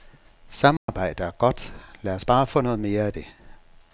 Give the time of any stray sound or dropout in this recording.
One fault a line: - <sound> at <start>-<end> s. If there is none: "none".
- dropout at 0.8-0.9 s